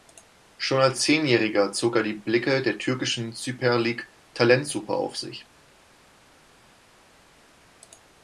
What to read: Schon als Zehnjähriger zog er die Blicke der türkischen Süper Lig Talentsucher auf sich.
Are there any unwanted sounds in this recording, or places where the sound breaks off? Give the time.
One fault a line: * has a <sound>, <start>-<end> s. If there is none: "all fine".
all fine